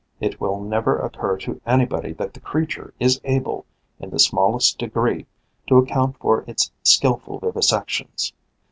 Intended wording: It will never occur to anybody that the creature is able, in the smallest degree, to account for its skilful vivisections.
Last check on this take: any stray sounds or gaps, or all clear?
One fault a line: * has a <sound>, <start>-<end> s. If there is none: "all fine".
all fine